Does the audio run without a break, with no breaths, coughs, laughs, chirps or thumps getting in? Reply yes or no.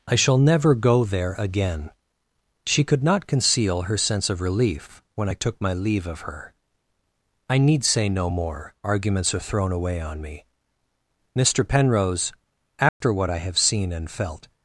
no